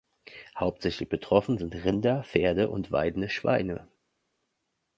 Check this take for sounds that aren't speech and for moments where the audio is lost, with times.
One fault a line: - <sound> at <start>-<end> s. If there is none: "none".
none